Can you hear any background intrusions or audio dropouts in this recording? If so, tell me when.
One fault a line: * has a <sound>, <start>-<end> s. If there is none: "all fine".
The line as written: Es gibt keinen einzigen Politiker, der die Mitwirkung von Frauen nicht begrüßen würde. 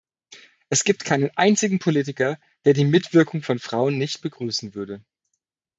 all fine